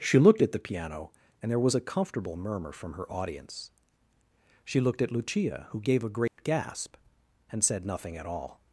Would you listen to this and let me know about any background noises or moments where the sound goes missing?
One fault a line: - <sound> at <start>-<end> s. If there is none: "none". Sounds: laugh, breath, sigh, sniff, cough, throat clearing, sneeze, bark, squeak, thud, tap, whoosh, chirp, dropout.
- dropout at 6.3-6.4 s